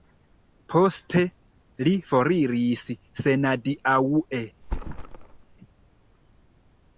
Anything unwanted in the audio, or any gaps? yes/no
yes